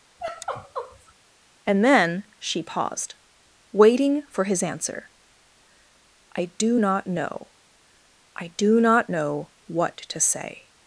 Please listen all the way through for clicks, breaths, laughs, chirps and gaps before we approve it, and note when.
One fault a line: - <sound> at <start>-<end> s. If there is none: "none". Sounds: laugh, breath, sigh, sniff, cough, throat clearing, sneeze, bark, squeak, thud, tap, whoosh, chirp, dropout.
- sigh at 0.2-1.1 s